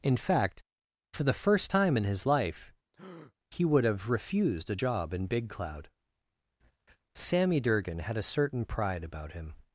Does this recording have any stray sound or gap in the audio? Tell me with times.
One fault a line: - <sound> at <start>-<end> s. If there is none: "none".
- breath at 2.9-3.3 s